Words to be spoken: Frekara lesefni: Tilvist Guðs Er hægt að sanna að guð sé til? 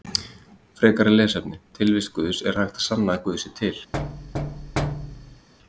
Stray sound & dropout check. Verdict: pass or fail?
fail